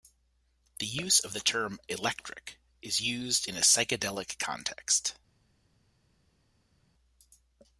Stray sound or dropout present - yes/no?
no